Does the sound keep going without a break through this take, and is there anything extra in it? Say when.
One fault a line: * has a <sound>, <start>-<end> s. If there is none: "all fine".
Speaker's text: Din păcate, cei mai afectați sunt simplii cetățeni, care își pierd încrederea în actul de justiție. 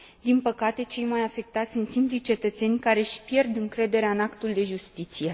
all fine